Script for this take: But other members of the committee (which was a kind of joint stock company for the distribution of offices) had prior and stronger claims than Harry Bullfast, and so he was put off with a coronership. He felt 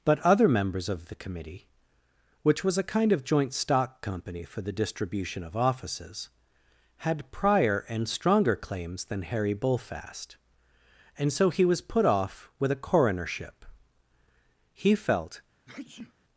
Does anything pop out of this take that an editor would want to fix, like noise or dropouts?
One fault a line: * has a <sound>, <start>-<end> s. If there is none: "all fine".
* has a sneeze, 15.7-16.1 s